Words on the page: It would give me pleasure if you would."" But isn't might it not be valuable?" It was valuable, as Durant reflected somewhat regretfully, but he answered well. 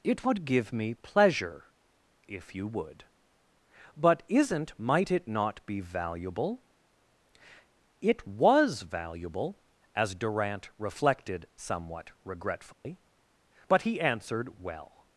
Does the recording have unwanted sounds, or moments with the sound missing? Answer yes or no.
yes